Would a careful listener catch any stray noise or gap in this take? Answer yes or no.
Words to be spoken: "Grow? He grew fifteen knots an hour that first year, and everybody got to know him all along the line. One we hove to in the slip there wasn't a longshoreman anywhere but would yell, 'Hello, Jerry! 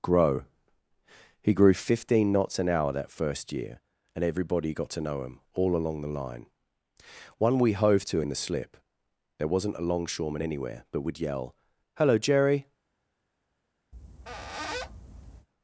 yes